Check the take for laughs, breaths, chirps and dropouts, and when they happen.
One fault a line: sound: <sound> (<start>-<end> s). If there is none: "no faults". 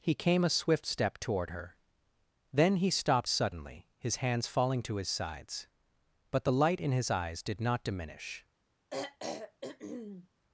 sound: throat clearing (8.9-10.3 s)